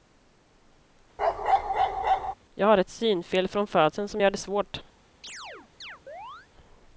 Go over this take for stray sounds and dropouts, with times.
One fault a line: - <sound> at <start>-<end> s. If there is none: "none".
- bark at 1.2-2.3 s
- chirp at 5.2-6.5 s